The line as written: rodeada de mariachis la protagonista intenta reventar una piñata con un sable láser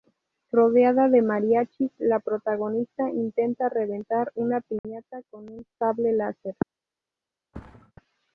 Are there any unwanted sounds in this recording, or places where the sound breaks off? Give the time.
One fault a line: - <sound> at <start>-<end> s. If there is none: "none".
- dropout at 4.8-4.8 s
- thud at 7.5-7.9 s